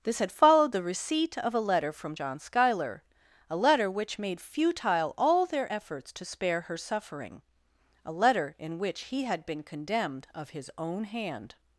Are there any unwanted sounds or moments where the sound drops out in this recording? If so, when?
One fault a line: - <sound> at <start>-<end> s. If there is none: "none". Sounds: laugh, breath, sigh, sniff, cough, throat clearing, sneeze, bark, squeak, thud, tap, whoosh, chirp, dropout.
none